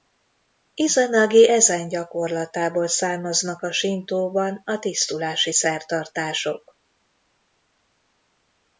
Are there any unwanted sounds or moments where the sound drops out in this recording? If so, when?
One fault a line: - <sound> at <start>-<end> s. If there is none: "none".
none